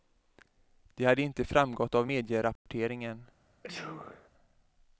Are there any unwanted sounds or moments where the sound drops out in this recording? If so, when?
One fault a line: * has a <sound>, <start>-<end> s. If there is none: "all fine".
* has a dropout, 2.6-2.7 s
* has a sneeze, 3.6-4.3 s